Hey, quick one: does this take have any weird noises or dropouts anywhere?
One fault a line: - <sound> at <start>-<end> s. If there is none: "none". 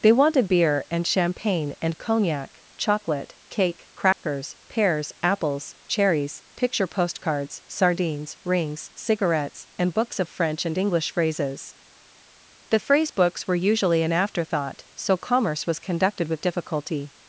- dropout at 4.1-4.2 s